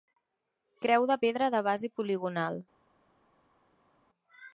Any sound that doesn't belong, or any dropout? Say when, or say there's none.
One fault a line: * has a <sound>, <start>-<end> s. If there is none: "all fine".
all fine